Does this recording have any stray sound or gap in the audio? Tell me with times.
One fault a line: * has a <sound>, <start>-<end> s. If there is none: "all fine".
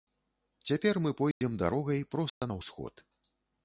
* has a dropout, 1.3-1.4 s
* has a dropout, 2.3-2.4 s